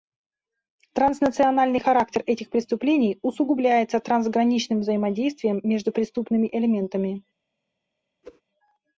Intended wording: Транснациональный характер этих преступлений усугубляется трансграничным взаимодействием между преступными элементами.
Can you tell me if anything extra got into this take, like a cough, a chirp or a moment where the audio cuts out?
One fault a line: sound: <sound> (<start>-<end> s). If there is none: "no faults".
sound: whoosh (8.2-8.4 s)